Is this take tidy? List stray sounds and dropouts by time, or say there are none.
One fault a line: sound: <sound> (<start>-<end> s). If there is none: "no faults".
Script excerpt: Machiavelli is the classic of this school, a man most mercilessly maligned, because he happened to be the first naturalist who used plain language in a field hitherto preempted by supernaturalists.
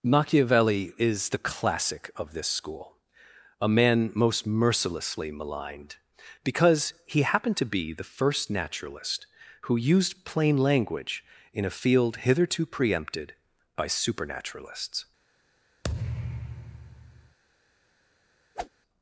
sound: thud (15.8-17.4 s)
sound: whoosh (18.5-18.7 s)